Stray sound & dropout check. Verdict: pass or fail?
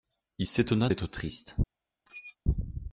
fail